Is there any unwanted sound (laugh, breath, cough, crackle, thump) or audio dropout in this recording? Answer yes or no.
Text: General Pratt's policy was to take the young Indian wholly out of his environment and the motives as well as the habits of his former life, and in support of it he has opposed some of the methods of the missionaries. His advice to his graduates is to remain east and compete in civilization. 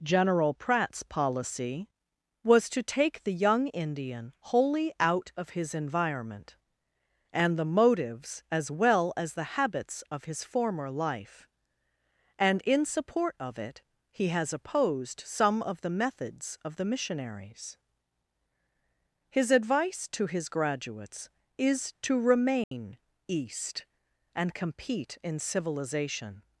yes